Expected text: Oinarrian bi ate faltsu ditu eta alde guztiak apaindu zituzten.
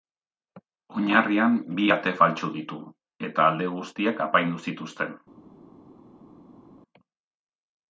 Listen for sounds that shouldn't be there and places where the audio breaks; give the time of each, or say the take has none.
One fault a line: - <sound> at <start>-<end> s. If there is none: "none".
none